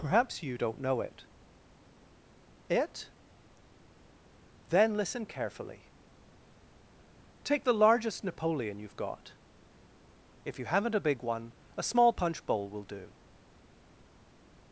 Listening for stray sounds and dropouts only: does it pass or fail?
pass